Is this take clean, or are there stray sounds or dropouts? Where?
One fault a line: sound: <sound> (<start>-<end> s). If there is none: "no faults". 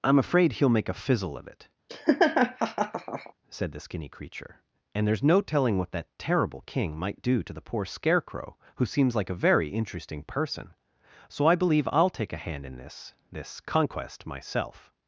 sound: laugh (1.9-3.3 s)